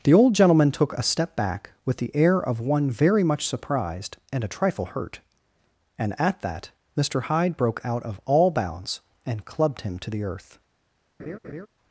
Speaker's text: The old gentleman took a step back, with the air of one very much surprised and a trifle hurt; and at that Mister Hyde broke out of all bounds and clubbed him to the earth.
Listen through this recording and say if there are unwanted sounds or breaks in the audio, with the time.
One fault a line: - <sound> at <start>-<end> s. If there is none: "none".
- laugh at 11.2-11.7 s